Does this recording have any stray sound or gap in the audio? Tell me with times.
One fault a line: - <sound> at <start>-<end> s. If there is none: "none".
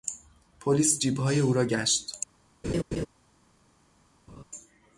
- laugh at 2.6-3.1 s
- laugh at 4.3-4.4 s